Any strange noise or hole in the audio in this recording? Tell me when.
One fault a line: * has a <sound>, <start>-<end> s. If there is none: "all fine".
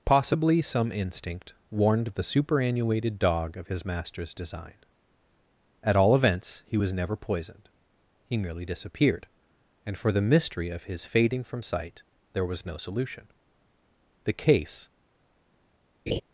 * has a laugh, 16.1-16.2 s